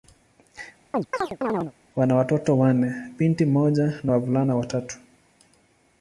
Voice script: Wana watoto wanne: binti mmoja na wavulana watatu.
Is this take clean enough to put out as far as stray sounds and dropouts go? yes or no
no